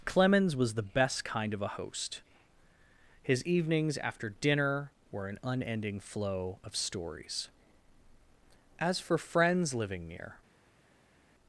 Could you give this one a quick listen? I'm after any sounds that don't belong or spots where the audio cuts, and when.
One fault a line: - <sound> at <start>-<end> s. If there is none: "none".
none